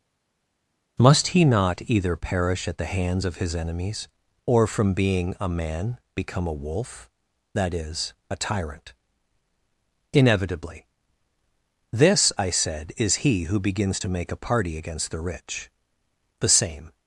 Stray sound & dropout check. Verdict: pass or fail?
pass